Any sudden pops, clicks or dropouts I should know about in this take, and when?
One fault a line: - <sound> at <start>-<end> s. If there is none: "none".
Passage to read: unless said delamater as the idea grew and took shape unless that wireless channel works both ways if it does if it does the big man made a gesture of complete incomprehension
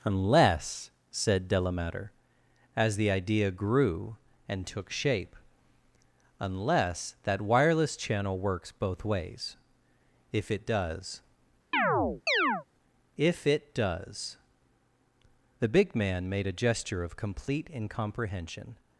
- chirp at 11.7-12.6 s